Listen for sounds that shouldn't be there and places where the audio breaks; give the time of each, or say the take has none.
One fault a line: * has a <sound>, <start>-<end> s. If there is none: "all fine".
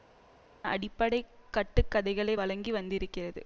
all fine